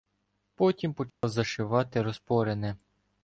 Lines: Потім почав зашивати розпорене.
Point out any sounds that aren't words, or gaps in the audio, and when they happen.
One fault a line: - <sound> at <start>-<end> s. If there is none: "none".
- dropout at 1.1-1.2 s